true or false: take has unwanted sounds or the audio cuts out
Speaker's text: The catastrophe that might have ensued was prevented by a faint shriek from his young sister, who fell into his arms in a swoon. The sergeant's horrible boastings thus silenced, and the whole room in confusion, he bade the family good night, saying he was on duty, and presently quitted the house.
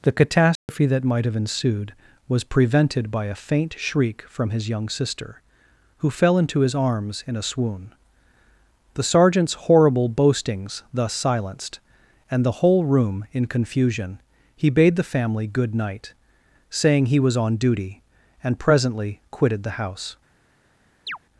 true